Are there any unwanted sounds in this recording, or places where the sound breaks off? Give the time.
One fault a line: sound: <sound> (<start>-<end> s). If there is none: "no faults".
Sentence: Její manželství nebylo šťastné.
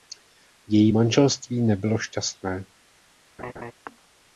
sound: laugh (3.4-3.7 s)